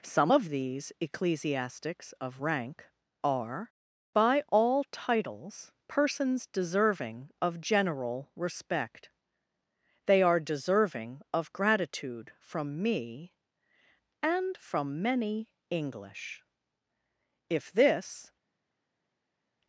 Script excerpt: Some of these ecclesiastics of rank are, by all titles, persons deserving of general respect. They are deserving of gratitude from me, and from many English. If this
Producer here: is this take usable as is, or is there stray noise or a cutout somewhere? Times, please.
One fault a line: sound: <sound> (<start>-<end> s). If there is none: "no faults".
no faults